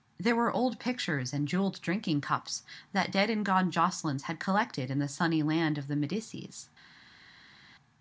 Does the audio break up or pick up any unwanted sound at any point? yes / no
no